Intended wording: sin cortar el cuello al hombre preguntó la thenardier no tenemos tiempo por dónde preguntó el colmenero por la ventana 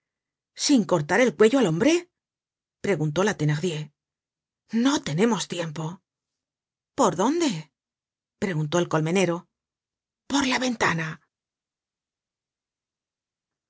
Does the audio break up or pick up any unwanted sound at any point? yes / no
no